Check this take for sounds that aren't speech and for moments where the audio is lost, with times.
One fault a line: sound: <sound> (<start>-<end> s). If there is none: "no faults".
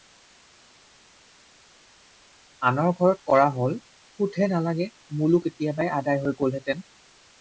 no faults